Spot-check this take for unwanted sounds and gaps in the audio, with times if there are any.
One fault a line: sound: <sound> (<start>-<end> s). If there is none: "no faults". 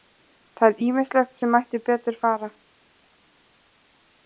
no faults